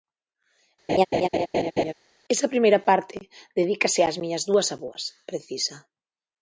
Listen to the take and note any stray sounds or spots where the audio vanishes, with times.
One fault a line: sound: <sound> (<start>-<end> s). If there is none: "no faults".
sound: laugh (0.9-1.9 s)